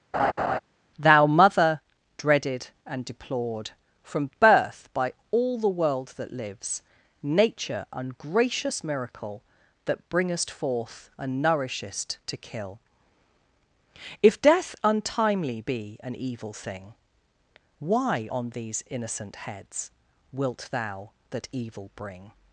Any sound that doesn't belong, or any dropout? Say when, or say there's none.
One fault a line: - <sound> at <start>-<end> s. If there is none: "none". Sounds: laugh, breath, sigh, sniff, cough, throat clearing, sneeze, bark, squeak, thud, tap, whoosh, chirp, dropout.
- laugh at 0.1-0.6 s